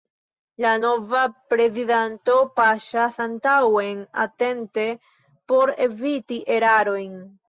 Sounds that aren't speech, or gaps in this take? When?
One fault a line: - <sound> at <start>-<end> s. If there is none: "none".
none